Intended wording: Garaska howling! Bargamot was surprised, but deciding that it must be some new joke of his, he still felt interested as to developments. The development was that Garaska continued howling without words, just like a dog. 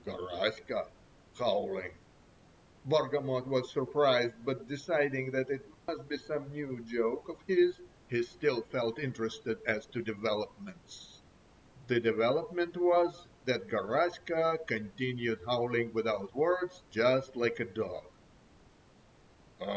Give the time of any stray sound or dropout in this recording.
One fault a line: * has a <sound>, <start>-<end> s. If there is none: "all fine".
* has a dropout, 5.7-5.9 s